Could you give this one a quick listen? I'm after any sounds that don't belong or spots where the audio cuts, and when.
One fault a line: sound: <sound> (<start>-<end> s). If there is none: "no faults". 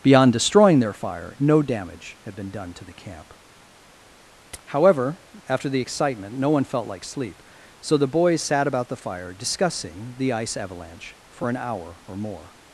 no faults